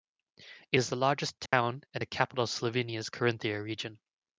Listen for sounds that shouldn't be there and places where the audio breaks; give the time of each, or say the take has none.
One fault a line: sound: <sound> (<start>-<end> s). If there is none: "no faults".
sound: dropout (1.5-1.5 s)